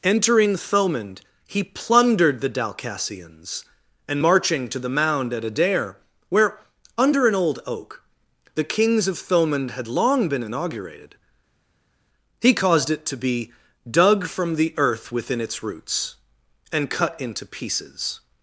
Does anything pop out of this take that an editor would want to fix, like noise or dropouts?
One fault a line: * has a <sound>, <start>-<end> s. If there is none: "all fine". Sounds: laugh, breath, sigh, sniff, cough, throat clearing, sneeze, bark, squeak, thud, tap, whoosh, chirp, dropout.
all fine